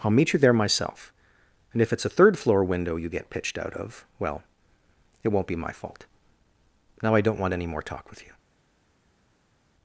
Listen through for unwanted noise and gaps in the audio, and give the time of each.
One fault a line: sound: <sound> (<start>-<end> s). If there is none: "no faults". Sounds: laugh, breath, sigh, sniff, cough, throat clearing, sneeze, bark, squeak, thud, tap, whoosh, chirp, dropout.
no faults